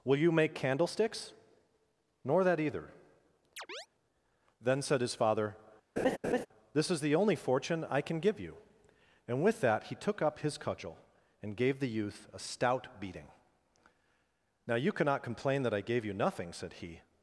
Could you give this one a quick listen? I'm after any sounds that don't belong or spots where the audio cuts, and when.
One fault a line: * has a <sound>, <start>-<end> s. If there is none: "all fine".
* has a chirp, 3.6-3.9 s
* has a laugh, 6.0-6.5 s